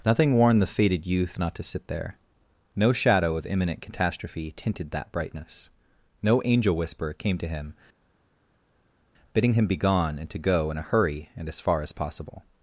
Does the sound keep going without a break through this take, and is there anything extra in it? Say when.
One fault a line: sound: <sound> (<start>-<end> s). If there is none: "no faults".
no faults